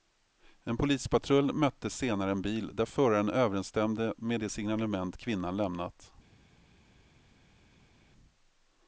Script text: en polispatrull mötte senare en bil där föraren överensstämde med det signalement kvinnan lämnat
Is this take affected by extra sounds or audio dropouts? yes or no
no